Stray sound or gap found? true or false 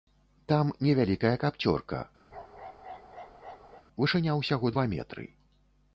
true